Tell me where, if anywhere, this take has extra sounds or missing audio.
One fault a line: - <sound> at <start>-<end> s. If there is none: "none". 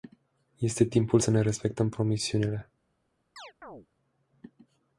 - chirp at 3.4-3.9 s